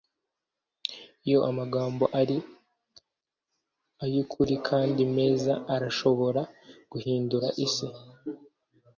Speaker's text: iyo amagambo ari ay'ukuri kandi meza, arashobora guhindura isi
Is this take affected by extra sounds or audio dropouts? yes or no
no